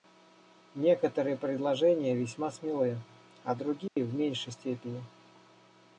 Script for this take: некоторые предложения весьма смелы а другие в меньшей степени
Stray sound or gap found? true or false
true